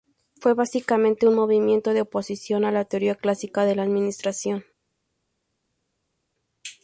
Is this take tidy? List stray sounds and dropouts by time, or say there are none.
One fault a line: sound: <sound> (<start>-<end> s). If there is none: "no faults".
no faults